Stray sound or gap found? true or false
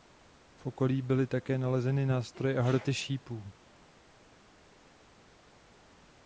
false